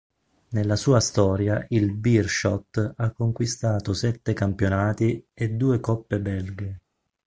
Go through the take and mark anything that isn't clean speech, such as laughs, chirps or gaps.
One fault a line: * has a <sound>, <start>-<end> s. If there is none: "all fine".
all fine